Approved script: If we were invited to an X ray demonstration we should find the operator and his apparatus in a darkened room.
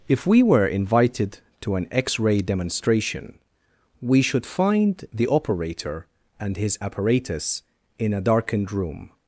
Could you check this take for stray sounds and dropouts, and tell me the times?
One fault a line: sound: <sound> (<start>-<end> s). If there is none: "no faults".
no faults